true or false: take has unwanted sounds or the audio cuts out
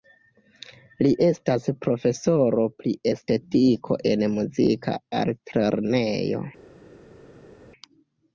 false